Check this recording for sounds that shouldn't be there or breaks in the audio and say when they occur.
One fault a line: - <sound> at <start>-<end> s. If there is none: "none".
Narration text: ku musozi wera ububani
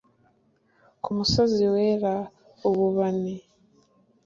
none